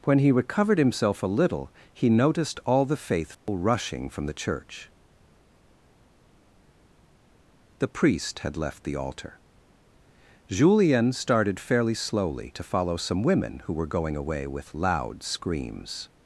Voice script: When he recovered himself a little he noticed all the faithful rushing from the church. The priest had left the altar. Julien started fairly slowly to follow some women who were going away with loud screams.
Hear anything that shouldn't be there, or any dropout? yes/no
yes